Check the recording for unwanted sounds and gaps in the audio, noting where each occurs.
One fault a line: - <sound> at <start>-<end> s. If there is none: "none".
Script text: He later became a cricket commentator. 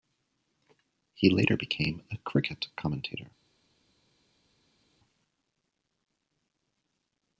none